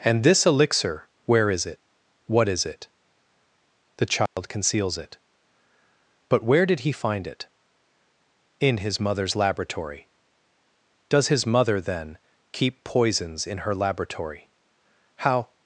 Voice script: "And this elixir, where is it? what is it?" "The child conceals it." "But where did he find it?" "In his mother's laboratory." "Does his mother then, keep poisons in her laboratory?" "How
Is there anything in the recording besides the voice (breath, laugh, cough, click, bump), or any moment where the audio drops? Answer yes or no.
yes